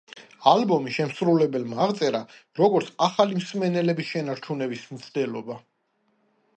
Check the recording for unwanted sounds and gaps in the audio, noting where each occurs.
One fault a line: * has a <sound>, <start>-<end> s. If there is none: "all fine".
all fine